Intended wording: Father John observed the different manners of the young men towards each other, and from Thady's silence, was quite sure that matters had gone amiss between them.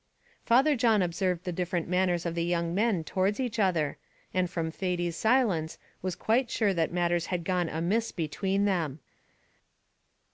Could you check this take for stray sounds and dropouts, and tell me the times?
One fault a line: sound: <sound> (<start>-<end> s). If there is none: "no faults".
no faults